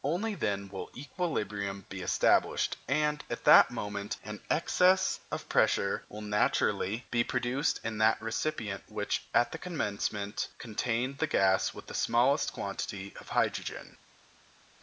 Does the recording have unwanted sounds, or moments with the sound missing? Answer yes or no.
no